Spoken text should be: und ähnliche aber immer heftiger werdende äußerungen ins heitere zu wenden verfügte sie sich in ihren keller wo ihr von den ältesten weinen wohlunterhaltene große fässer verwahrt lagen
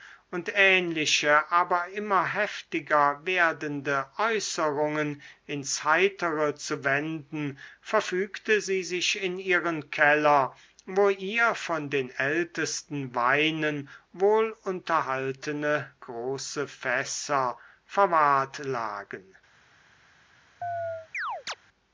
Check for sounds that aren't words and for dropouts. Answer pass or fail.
fail